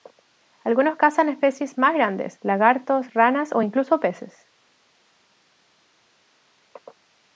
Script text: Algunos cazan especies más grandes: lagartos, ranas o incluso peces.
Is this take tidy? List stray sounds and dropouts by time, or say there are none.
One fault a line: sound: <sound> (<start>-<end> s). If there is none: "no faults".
no faults